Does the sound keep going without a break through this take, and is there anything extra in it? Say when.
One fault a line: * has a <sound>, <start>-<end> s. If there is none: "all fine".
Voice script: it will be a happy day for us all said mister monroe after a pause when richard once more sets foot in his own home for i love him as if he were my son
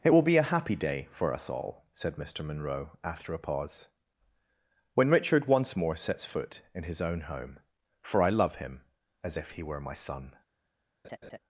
* has a laugh, 11.0-11.4 s